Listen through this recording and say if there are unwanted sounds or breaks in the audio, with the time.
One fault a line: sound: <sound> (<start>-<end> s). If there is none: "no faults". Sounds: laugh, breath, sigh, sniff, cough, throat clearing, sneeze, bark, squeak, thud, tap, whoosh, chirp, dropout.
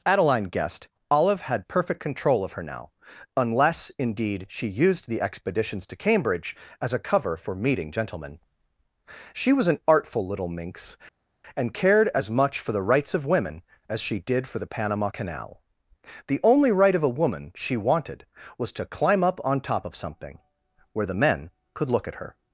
no faults